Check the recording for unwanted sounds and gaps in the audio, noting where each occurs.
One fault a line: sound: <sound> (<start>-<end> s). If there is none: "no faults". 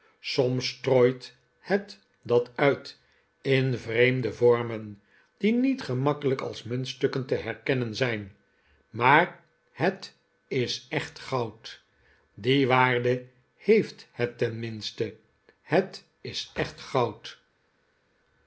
no faults